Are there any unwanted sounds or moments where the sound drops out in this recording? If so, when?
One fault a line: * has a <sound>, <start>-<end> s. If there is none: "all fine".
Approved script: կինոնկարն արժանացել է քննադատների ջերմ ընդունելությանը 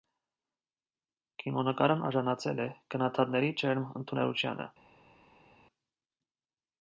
all fine